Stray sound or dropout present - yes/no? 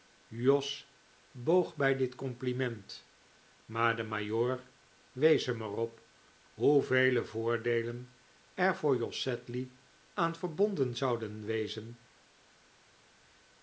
no